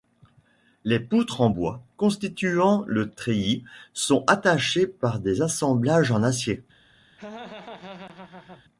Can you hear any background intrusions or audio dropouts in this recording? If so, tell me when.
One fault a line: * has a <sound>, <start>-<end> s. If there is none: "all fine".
* has a laugh, 7.2-8.6 s